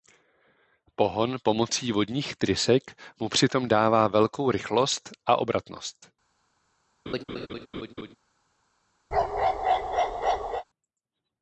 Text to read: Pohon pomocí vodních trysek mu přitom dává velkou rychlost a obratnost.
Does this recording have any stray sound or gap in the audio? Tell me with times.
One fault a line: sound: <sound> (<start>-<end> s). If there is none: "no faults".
sound: laugh (7.1-8.2 s)
sound: bark (9.1-10.6 s)